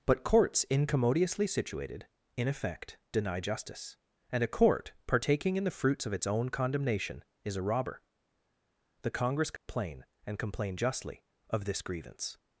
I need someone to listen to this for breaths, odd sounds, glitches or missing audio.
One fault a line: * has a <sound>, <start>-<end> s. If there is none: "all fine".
* has a dropout, 9.6-9.7 s